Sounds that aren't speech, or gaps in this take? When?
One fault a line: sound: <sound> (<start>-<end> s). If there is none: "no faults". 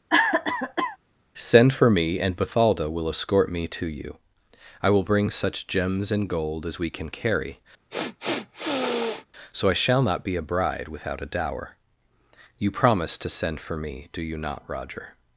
sound: cough (0.1-1.0 s)
sound: sniff (7.9-9.3 s)